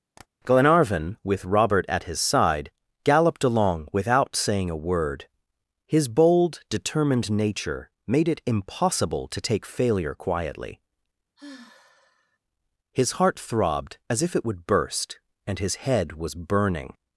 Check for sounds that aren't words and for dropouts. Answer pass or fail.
fail